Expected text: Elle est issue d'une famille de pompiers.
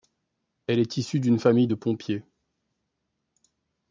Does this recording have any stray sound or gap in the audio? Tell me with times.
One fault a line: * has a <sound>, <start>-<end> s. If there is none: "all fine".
all fine